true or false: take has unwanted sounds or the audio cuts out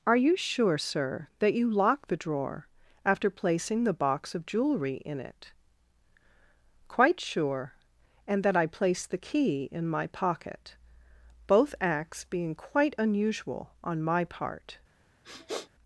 true